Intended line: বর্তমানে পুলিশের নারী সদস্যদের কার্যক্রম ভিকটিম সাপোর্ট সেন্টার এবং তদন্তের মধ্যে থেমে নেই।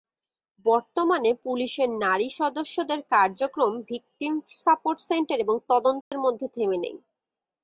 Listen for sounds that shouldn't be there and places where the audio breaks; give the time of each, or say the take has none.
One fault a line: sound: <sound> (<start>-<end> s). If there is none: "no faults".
sound: dropout (6.0-6.1 s)